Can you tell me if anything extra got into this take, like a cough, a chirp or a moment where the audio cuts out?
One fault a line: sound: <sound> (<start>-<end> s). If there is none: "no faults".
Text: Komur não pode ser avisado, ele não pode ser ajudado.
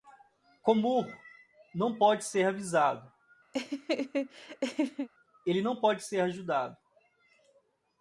sound: laugh (3.5-5.1 s)